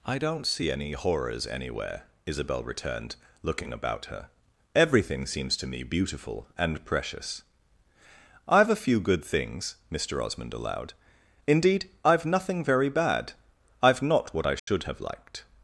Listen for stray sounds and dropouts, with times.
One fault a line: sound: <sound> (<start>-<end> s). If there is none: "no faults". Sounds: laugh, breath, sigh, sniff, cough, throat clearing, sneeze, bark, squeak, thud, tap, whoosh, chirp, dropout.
sound: dropout (14.6-14.7 s)